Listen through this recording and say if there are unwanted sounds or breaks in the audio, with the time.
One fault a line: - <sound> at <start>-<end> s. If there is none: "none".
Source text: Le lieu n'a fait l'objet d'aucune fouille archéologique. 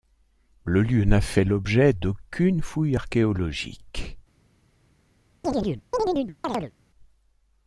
- chirp at 5.4-6.7 s